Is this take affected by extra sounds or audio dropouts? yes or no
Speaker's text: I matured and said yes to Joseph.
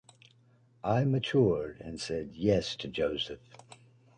no